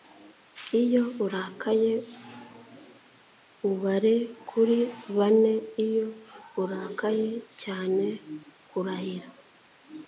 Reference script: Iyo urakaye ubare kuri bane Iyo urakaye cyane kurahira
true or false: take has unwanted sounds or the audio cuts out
false